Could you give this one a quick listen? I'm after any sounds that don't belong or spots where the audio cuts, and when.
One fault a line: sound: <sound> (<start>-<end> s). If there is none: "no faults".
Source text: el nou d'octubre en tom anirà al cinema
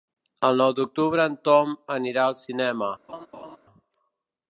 sound: laugh (3.1-3.6 s)